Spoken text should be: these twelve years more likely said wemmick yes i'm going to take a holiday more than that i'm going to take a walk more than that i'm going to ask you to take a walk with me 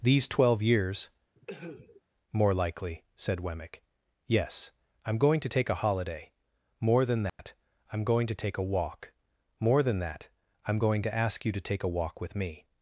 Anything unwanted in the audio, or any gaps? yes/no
yes